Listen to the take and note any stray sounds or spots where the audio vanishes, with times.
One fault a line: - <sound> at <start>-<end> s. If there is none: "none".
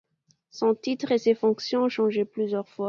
none